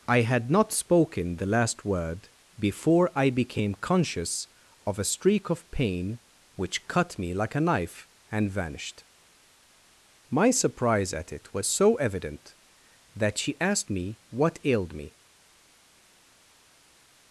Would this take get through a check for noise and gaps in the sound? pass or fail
pass